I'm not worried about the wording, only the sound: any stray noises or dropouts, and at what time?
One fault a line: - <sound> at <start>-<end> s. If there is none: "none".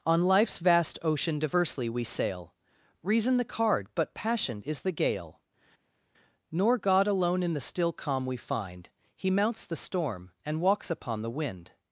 none